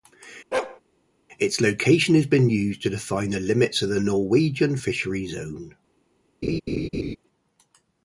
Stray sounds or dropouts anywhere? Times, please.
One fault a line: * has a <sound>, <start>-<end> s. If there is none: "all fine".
* has a bark, 0.5-0.8 s
* has a laugh, 6.4-7.2 s